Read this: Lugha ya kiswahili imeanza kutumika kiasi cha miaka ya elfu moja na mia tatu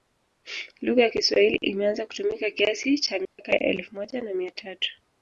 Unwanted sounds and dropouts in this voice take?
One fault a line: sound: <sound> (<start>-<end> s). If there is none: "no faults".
sound: dropout (3.2-3.4 s)